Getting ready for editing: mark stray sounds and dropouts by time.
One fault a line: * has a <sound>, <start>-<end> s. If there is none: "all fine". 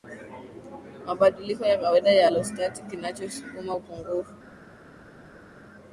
all fine